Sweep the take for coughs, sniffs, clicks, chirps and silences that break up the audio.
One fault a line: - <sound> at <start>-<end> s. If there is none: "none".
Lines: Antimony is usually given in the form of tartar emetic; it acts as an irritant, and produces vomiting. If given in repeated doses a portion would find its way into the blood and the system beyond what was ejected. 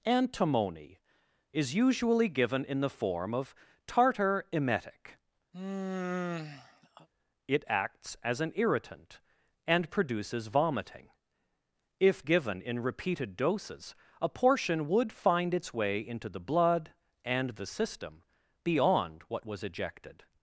- sigh at 5.5-7.1 s